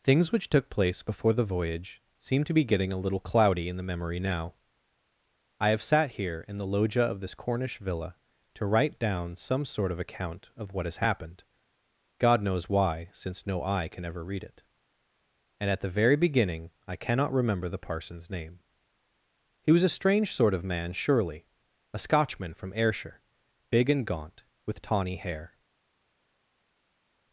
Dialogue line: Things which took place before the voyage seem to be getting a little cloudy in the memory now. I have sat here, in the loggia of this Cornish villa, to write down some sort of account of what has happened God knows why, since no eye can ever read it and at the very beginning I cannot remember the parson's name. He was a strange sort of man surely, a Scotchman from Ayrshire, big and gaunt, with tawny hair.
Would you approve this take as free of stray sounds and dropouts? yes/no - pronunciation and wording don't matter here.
yes